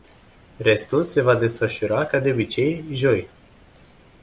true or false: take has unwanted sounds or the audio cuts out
false